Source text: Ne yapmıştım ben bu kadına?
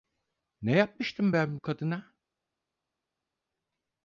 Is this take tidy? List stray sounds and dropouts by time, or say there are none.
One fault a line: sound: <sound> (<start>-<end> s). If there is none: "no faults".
no faults